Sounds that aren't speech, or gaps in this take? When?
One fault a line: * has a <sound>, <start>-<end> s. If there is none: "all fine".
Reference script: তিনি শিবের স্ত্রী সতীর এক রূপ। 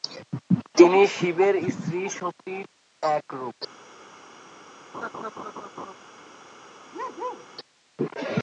* has a laugh, 4.9-6.0 s
* has a bark, 6.9-7.5 s